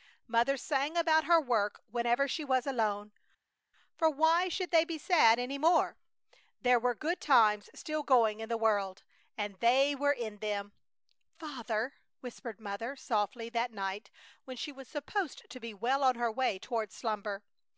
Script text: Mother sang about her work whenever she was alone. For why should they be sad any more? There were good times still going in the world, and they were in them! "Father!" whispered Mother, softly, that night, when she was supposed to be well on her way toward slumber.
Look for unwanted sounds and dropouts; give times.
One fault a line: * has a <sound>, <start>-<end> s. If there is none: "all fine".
all fine